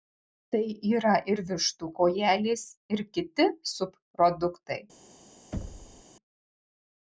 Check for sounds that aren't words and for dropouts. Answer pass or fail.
fail